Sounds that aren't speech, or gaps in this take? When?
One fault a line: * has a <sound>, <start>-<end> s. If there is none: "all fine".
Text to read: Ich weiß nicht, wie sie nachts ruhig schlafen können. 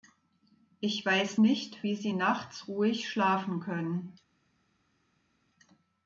all fine